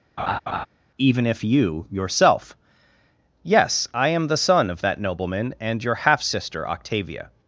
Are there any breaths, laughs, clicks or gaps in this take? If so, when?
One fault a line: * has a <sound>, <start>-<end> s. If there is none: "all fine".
* has a laugh, 0.2-0.7 s